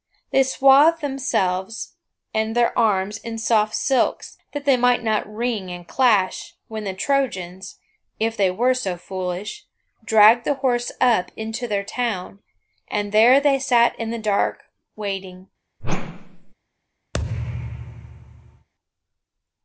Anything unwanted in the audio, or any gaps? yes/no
yes